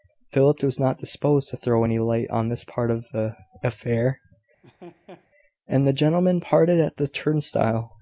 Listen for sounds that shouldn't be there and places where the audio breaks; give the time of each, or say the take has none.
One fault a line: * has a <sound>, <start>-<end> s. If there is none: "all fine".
* has a laugh, 4.6-5.3 s